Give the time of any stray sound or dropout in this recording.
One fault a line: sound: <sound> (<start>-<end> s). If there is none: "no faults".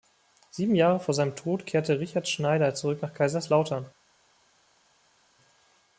no faults